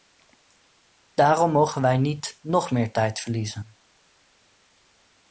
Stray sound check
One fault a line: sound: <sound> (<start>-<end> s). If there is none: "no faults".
no faults